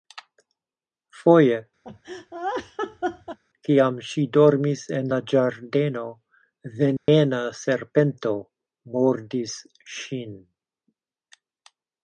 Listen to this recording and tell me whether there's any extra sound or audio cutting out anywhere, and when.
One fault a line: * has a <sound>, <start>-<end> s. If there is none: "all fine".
* has a laugh, 1.8-3.4 s
* has a dropout, 7.0-7.1 s